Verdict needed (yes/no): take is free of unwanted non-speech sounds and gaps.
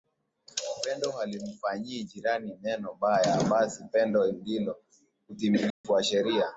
no